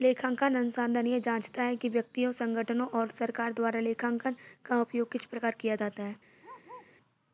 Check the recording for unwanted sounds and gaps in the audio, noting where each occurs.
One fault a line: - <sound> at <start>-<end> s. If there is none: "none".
- bark at 6.4-7.0 s